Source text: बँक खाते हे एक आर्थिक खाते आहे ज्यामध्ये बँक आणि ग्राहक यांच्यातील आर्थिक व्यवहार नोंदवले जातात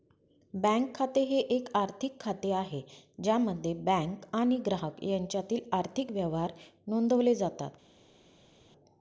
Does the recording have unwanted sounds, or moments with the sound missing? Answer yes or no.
no